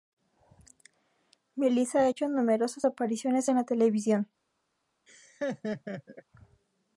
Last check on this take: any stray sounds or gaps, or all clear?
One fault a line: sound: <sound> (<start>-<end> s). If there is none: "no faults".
sound: laugh (5.1-6.2 s)